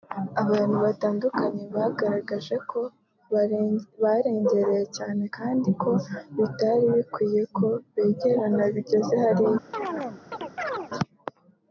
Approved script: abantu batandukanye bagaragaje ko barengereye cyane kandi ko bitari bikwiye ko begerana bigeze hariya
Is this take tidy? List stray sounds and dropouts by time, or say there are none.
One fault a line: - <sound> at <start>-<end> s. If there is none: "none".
- chirp at 9.7-10.9 s